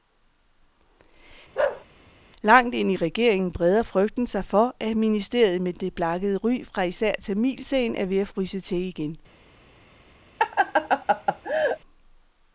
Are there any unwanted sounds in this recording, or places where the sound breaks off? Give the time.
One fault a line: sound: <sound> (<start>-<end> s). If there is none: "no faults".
sound: bark (1.5-1.8 s)
sound: laugh (10.4-11.8 s)